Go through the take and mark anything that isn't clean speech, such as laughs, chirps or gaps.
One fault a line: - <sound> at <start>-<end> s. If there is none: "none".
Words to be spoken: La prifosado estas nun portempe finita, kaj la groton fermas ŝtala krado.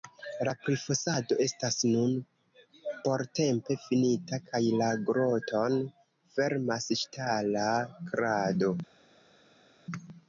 none